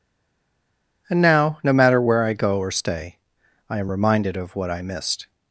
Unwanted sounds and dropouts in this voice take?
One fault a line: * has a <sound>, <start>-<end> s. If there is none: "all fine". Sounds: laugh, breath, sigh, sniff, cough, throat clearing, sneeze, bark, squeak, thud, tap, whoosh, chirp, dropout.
all fine